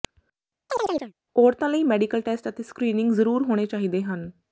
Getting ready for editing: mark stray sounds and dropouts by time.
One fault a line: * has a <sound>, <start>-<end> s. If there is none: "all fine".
* has a chirp, 0.7-1.1 s